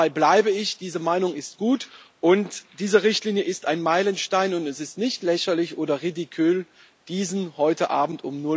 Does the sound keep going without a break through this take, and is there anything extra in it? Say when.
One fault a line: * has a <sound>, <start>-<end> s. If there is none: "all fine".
all fine